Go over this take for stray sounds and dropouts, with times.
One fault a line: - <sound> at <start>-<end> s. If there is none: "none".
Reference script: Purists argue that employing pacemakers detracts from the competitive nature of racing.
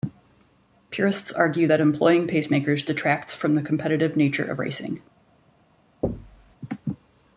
- thud at 6.0-6.6 s